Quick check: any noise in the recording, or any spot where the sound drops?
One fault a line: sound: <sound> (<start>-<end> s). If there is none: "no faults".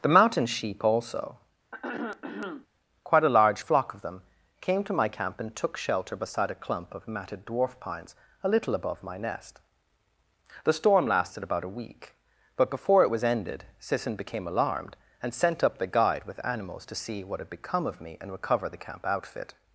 sound: throat clearing (1.7-2.7 s)